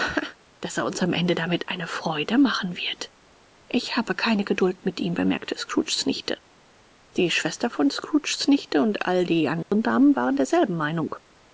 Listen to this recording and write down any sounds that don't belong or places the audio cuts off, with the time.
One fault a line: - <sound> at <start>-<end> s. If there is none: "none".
- dropout at 9.6-9.7 s